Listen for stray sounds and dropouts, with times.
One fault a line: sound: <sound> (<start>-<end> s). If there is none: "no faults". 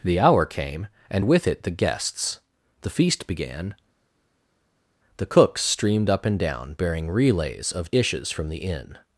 no faults